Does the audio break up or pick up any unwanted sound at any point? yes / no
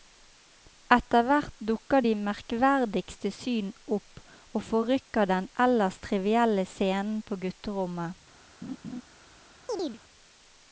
yes